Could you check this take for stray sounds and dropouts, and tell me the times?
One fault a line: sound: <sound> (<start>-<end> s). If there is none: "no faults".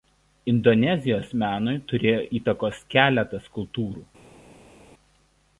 no faults